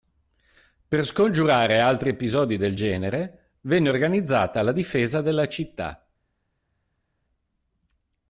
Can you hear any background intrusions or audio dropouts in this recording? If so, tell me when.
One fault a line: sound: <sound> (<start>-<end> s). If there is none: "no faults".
no faults